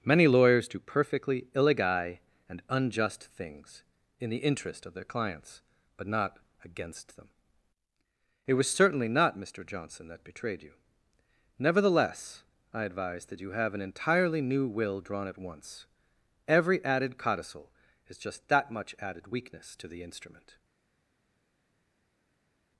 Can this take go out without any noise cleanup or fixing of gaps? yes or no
yes